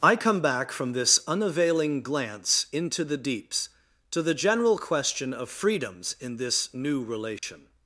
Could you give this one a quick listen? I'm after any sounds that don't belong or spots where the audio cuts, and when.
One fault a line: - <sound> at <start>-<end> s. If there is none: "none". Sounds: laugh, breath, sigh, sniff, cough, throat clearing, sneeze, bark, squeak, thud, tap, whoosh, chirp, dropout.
- dropout at 7.4-7.4 s